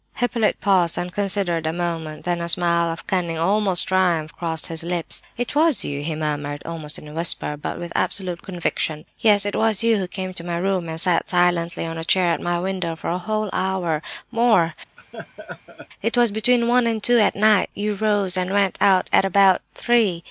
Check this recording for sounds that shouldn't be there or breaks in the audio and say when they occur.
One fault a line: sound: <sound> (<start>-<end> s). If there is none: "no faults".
sound: laugh (15.0-15.9 s)